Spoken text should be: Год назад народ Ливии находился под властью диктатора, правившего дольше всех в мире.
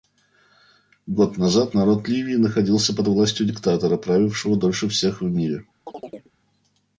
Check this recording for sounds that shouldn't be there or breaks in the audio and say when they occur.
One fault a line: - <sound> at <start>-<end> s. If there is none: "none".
- chirp at 5.9-6.3 s